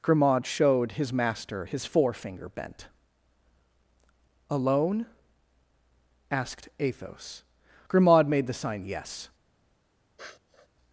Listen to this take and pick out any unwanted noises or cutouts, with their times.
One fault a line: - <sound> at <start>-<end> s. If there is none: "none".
- sniff at 10.2-10.7 s